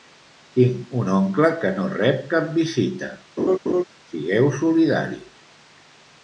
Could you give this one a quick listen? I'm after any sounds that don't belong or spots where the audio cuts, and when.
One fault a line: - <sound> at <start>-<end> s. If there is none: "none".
- laugh at 3.4-3.8 s